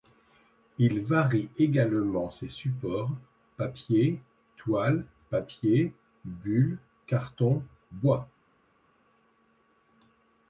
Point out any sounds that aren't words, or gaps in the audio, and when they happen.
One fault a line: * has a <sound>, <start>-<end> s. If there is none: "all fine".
all fine